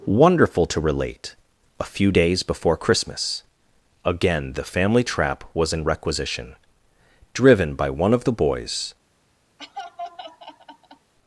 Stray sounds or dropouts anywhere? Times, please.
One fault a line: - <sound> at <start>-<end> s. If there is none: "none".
- laugh at 9.6-11.1 s